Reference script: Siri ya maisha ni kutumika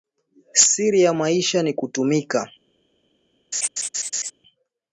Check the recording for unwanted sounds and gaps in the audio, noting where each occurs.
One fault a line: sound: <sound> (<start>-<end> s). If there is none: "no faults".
sound: laugh (3.5-4.3 s)